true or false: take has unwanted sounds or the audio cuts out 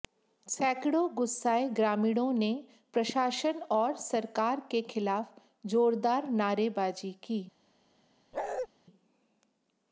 true